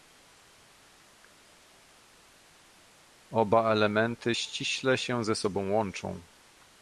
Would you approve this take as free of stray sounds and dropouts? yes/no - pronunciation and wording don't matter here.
yes